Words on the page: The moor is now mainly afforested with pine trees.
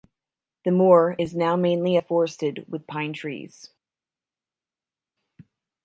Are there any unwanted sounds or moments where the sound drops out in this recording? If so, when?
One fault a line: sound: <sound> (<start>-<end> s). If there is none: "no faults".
no faults